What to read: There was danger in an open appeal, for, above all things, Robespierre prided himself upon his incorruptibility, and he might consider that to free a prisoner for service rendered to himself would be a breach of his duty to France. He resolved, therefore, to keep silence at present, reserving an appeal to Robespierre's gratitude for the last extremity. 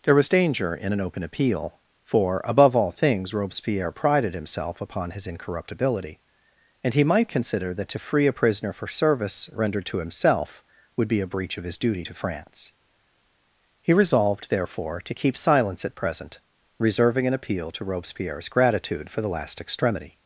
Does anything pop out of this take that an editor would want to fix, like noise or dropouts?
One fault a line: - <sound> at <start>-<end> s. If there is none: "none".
none